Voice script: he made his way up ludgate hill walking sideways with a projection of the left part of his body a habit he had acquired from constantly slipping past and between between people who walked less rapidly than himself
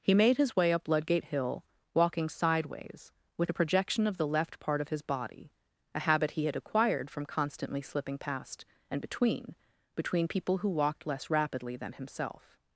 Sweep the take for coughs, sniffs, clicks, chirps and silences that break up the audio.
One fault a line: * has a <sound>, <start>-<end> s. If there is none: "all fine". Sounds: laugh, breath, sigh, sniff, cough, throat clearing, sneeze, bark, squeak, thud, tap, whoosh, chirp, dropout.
all fine